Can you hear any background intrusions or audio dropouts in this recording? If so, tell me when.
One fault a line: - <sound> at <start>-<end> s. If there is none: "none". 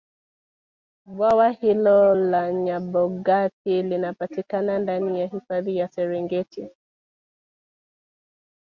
none